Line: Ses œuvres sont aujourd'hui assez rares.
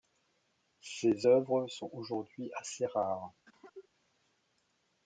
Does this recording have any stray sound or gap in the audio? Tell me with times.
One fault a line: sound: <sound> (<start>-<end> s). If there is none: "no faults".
sound: cough (3.5-3.9 s)